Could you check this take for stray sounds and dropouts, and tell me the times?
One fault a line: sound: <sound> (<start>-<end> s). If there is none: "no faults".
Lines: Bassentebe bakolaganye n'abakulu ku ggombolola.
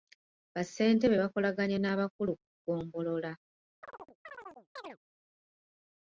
sound: chirp (3.8-5.0 s)